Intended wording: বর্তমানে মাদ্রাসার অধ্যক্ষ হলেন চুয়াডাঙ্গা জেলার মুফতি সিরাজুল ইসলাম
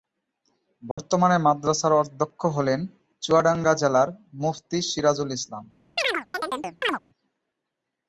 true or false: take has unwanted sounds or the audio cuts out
true